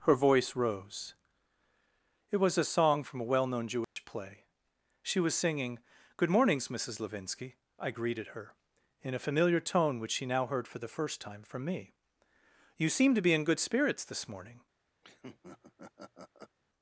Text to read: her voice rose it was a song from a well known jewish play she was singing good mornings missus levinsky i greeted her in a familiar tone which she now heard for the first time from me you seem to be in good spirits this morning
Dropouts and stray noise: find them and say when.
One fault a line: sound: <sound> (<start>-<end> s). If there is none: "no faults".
sound: dropout (3.8-4.0 s)
sound: laugh (15.0-16.6 s)